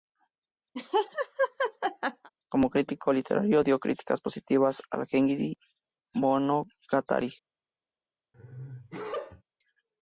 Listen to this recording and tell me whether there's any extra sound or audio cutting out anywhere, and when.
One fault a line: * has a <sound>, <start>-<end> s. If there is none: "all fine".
* has a laugh, 0.7-2.3 s
* has a sneeze, 8.3-9.4 s